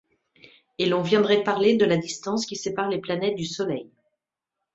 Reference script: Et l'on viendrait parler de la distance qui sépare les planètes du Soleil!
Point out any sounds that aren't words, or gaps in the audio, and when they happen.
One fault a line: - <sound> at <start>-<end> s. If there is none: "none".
none